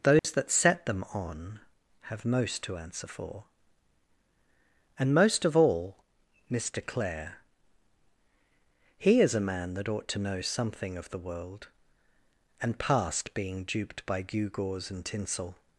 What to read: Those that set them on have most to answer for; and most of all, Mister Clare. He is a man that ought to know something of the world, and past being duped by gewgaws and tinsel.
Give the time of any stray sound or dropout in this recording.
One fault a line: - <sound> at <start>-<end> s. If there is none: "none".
- dropout at 0.2-0.2 s